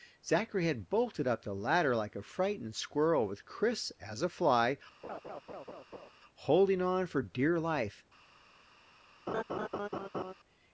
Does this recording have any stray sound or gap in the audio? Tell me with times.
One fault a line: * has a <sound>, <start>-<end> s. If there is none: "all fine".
* has a laugh, 5.0-6.1 s
* has a laugh, 9.3-10.3 s